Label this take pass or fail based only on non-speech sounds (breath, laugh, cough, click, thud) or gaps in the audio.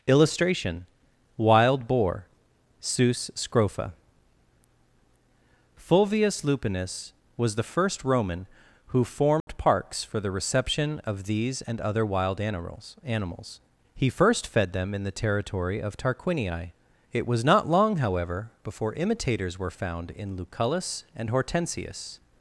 fail